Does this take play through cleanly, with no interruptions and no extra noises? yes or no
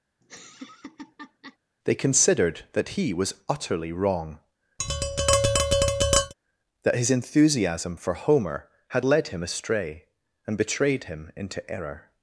no